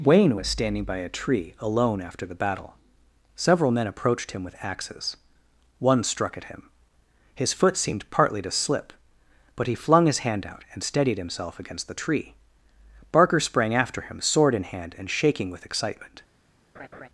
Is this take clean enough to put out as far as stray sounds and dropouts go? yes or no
no